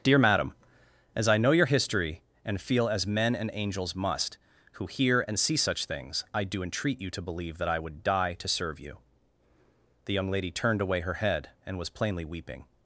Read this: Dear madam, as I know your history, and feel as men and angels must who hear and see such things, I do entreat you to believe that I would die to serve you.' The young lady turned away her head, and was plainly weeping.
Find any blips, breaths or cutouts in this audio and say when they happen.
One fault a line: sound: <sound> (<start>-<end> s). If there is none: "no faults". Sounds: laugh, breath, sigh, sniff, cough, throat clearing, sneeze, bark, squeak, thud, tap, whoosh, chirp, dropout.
no faults